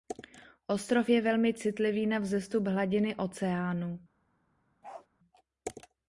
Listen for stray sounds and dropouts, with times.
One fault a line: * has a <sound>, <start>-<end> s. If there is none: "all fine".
* has a bark, 4.8-5.1 s